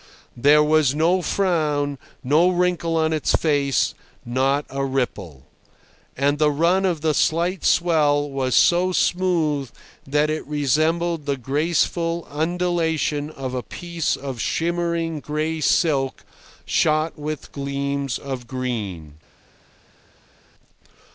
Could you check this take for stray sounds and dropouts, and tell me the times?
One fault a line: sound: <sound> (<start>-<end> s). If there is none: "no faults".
no faults